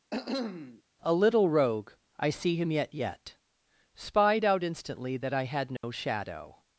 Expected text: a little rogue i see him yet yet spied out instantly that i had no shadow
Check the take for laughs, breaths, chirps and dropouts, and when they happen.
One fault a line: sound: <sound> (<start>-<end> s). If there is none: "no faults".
sound: cough (0.1-0.8 s)
sound: dropout (5.8-5.8 s)